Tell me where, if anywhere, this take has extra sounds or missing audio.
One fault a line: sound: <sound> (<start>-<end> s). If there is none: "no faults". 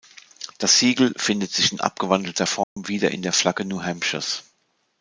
sound: dropout (2.6-2.8 s)